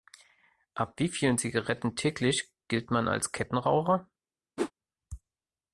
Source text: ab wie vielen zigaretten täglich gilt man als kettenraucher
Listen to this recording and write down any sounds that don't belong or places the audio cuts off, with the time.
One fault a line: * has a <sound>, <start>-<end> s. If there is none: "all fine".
* has a whoosh, 4.6-4.7 s